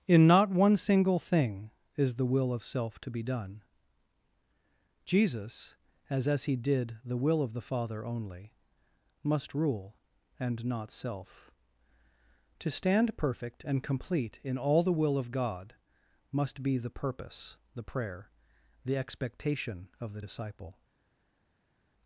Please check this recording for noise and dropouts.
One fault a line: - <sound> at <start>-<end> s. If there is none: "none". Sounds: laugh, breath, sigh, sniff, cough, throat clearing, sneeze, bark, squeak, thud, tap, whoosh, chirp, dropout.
none